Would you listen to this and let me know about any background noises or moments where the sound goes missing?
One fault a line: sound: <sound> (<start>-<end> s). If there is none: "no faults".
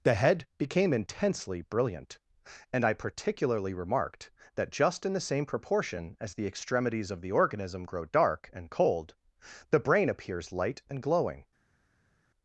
no faults